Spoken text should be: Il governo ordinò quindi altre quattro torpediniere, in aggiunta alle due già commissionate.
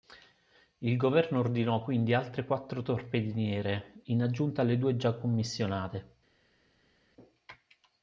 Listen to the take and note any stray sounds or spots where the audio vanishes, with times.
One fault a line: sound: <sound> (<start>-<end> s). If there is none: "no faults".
no faults